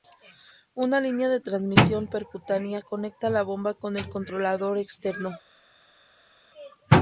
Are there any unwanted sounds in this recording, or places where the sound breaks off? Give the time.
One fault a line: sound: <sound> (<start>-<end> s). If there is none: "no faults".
no faults